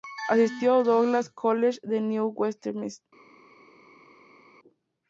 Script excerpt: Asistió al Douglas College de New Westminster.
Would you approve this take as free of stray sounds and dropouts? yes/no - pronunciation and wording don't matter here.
yes